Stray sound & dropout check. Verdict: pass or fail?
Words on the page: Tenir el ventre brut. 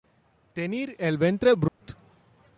fail